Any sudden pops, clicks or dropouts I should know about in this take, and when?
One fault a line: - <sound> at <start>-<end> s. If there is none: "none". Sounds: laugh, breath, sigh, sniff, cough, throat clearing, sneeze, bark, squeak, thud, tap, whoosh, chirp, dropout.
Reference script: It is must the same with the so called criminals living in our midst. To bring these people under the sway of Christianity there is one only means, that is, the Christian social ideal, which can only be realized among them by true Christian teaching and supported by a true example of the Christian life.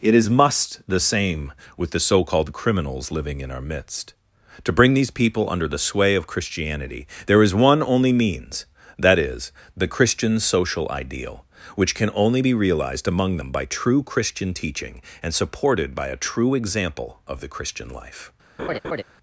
- laugh at 18.6-19.0 s